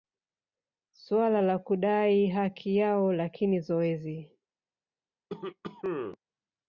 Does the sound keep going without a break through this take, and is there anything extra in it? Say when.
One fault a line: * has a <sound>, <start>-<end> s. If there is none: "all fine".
* has a cough, 5.3-6.2 s